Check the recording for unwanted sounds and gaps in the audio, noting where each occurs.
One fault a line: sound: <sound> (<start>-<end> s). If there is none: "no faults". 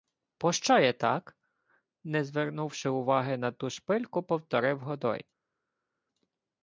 no faults